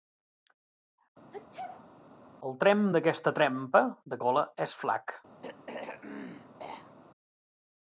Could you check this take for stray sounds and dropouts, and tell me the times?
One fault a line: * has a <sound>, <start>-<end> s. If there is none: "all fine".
* has a sneeze, 1.3-1.9 s
* has a throat clearing, 5.4-6.9 s